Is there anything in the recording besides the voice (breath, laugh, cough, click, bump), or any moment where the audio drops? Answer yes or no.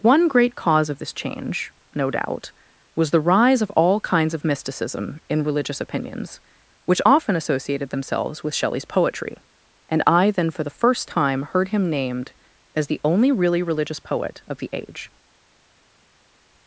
no